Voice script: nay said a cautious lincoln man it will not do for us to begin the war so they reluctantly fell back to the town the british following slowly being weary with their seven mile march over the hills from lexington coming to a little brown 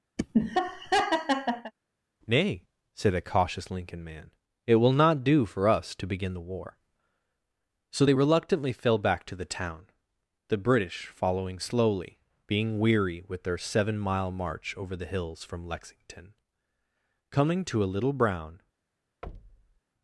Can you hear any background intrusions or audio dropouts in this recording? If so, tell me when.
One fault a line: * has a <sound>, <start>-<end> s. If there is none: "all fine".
* has a laugh, 0.2-1.7 s
* has a thud, 19.2-19.8 s